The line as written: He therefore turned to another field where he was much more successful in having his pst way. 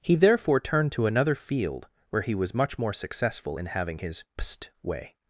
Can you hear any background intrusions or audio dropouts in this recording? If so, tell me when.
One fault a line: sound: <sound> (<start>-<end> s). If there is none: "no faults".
no faults